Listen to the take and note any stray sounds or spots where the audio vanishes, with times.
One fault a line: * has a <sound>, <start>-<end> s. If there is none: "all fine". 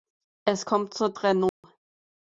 * has a dropout, 1.5-1.6 s